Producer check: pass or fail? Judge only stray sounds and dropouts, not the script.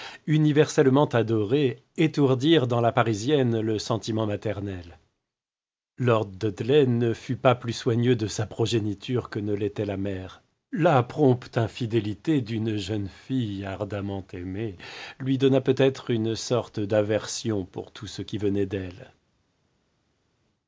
pass